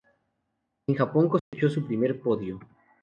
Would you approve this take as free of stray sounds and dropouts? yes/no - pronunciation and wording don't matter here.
no